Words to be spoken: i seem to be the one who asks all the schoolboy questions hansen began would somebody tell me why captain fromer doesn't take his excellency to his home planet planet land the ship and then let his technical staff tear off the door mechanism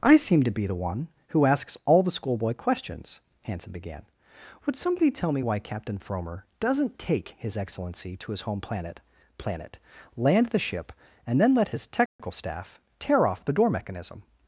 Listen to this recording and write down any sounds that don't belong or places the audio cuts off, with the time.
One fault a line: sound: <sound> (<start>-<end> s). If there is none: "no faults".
sound: dropout (12.1-12.2 s)